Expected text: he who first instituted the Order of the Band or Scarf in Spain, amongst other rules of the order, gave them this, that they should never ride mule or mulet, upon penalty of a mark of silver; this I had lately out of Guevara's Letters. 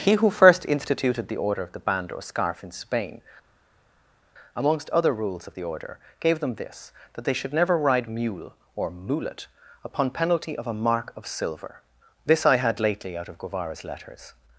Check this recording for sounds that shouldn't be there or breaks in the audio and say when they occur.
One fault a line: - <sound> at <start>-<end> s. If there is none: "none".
none